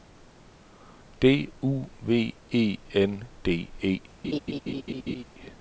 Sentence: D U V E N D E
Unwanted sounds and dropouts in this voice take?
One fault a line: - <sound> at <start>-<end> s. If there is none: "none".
- laugh at 4.2-5.2 s